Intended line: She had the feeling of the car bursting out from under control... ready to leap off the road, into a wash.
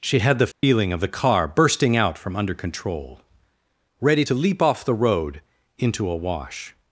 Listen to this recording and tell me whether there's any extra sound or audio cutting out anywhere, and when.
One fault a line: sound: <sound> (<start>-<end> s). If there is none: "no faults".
sound: dropout (0.5-0.6 s)